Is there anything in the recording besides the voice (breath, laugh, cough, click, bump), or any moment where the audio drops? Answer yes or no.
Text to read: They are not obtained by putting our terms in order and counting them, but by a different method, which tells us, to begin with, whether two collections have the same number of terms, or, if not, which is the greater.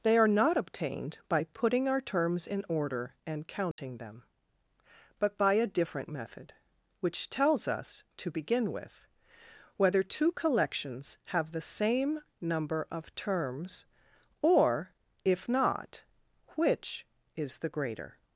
yes